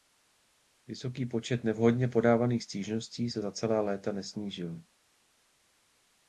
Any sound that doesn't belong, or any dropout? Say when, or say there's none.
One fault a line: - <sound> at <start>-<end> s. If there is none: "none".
none